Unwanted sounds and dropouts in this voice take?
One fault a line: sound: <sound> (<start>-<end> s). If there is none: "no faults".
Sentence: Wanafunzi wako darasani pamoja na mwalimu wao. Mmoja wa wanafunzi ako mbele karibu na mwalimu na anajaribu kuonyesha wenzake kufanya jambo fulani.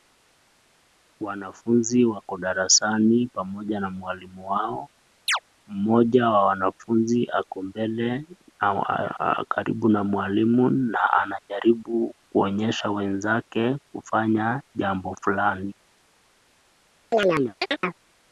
sound: chirp (5.3-5.4 s)
sound: chirp (17.1-18.0 s)